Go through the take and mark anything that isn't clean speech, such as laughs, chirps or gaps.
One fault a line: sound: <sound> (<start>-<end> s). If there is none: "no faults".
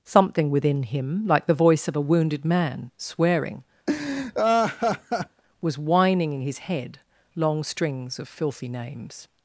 sound: laugh (3.9-5.4 s)